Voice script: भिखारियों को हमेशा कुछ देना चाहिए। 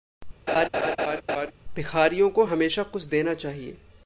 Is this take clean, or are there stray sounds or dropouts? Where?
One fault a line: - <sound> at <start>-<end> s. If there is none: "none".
- laugh at 0.5-1.5 s